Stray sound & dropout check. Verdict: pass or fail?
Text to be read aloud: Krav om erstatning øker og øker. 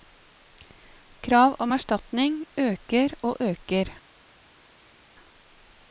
pass